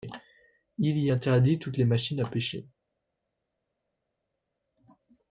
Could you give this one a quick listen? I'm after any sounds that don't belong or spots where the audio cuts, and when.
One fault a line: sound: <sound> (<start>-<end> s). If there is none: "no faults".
no faults